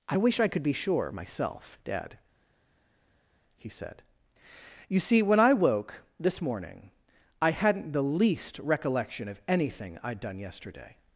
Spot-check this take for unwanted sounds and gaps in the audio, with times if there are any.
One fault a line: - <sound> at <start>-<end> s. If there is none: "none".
none